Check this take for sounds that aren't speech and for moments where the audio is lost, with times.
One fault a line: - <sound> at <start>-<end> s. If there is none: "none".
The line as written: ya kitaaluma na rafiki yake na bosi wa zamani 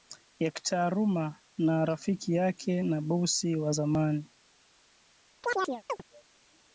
- chirp at 5.4-6.0 s